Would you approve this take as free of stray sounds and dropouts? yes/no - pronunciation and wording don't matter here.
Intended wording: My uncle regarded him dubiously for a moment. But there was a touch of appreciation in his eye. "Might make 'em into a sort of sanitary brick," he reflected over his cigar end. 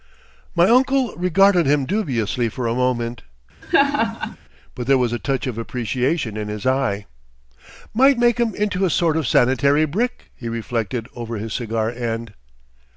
no